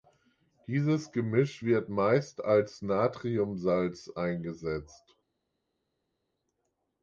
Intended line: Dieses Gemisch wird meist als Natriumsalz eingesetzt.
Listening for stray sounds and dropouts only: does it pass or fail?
pass